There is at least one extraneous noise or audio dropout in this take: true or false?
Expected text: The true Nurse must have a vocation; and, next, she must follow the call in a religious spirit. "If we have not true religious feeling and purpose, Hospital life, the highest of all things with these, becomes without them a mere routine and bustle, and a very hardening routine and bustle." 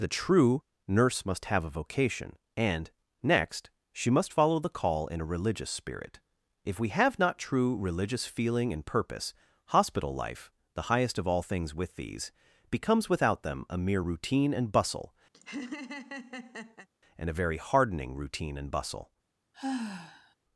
true